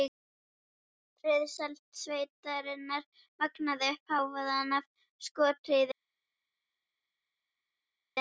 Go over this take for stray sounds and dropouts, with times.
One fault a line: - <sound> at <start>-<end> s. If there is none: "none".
none